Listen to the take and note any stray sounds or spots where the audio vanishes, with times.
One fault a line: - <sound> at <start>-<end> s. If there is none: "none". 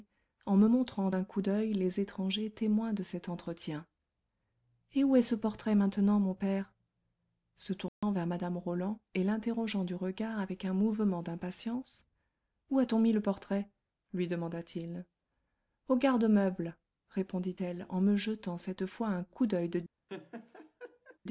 - dropout at 7.9-8.0 s
- laugh at 20.1-21.2 s